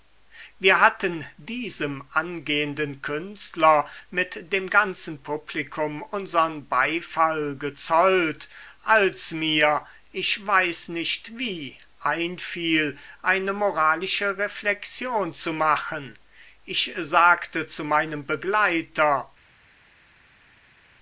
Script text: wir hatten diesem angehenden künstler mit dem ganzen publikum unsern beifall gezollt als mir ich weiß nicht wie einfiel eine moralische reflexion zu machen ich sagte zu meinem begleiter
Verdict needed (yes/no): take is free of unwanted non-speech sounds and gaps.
yes